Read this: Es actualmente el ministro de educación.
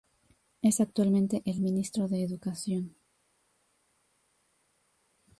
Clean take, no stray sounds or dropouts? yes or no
yes